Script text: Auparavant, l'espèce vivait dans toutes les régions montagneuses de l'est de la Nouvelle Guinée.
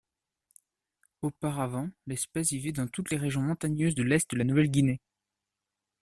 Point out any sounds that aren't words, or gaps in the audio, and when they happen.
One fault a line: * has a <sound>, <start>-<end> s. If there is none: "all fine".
all fine